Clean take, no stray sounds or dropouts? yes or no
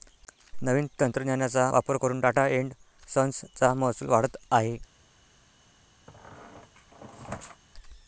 no